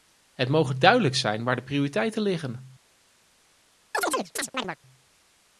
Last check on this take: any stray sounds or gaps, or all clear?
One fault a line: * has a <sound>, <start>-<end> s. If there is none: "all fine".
* has a chirp, 3.9-4.8 s